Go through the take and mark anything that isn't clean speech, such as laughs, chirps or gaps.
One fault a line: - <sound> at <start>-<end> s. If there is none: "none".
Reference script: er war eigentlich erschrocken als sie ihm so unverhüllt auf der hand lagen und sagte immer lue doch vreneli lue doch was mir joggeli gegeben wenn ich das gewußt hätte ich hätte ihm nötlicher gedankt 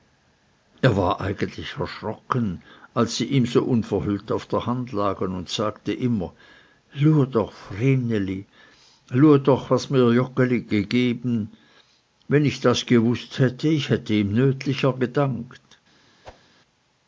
- whoosh at 16.2-16.5 s